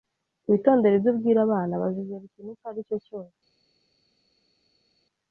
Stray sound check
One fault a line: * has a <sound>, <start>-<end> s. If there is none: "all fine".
all fine